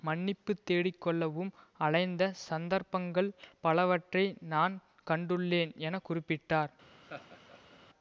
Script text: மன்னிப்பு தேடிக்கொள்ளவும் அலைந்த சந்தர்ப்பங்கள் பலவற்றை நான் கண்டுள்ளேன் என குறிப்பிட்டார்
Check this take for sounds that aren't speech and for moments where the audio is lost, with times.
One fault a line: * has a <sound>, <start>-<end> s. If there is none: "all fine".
* has a laugh, 7.0-7.8 s